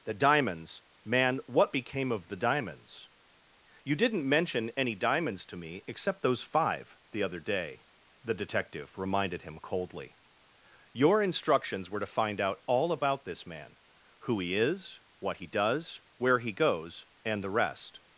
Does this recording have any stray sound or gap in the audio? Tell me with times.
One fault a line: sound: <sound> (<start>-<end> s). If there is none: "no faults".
no faults